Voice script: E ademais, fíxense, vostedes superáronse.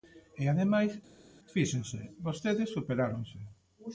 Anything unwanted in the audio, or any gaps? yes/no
no